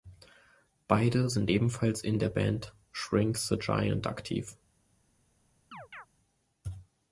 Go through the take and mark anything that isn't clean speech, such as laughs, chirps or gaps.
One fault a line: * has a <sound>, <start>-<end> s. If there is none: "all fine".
* has a chirp, 5.7-6.1 s